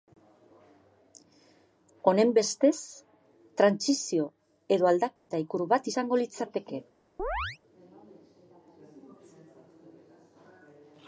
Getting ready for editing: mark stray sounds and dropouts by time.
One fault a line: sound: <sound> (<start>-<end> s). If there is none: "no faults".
sound: dropout (5.2-5.3 s)
sound: chirp (7.2-7.6 s)